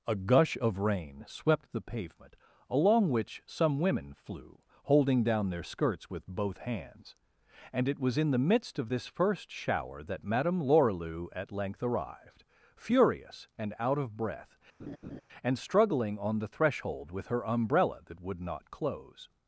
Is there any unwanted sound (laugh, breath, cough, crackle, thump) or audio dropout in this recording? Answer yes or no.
yes